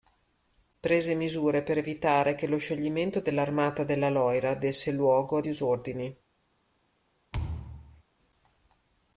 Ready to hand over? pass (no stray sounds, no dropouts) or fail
fail